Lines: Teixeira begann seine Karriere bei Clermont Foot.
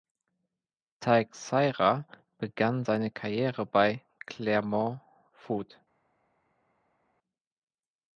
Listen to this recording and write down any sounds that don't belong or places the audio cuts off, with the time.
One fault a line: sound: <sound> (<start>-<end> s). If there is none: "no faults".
no faults